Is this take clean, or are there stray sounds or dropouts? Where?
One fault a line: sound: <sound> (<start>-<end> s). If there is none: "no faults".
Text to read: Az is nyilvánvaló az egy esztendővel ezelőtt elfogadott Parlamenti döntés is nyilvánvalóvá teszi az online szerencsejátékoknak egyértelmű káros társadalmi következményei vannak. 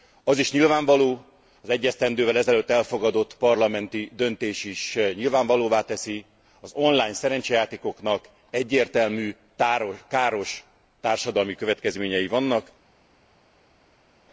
no faults